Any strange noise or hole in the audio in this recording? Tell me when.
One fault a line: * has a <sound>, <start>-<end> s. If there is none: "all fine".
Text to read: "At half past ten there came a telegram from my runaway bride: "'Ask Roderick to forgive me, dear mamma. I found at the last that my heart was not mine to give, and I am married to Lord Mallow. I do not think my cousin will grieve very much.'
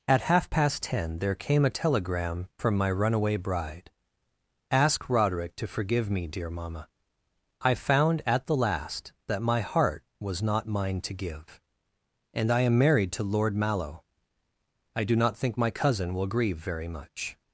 all fine